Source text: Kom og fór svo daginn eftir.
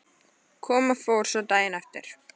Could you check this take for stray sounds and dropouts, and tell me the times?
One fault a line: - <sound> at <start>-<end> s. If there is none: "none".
none